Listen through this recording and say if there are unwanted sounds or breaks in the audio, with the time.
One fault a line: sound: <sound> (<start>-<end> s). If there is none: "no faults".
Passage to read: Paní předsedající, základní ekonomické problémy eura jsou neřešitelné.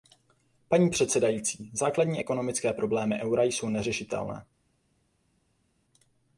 no faults